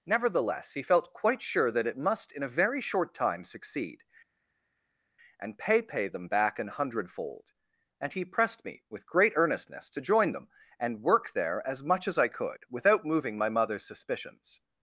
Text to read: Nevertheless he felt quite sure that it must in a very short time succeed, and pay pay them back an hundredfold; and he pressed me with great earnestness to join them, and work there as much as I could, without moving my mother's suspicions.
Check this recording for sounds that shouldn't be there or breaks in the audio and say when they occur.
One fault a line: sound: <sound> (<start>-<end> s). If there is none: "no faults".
no faults